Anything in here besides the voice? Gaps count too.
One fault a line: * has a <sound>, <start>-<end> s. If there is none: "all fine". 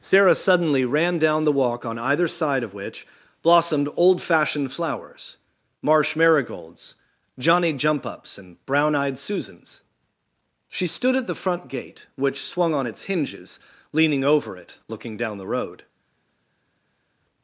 all fine